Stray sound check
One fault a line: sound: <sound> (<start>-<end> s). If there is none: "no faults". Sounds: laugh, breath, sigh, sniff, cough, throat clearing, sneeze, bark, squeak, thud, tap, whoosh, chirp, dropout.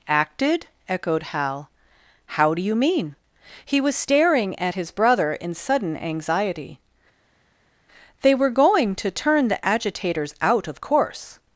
no faults